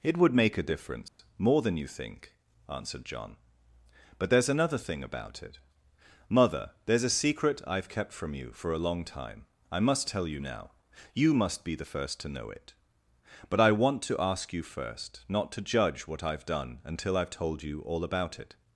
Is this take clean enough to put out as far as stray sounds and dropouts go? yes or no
no